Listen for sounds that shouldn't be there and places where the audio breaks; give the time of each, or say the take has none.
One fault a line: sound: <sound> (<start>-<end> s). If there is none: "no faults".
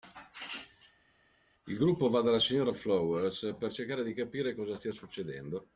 no faults